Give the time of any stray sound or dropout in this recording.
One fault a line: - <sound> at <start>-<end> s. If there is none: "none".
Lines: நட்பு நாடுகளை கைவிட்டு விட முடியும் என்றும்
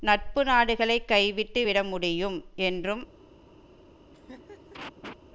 - laugh at 4.1-5.2 s